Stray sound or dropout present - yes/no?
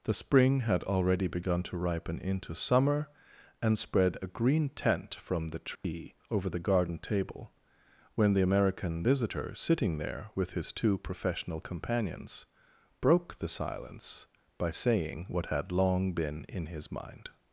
yes